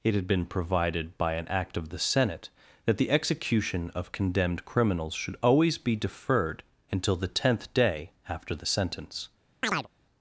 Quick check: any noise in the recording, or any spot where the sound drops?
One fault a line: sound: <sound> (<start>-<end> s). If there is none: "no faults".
sound: chirp (9.6-9.9 s)